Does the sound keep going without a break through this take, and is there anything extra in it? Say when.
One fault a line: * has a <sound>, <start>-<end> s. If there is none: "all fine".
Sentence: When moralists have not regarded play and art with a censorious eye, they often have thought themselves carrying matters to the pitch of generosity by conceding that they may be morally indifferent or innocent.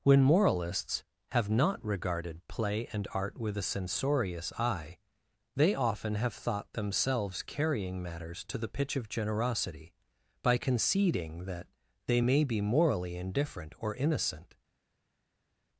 all fine